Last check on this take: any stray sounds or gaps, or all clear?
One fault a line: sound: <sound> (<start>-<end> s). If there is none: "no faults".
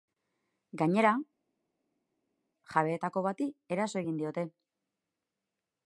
no faults